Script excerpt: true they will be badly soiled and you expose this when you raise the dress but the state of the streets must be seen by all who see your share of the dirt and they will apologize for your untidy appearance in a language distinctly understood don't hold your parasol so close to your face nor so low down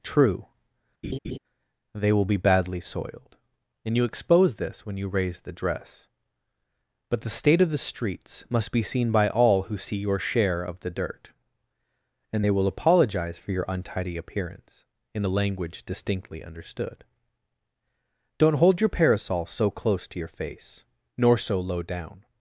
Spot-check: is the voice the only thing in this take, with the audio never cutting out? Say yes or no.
no